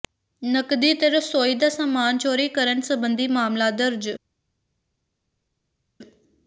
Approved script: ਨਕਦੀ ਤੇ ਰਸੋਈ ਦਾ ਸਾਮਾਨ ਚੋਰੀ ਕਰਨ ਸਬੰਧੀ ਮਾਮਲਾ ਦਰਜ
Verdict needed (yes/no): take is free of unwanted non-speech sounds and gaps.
yes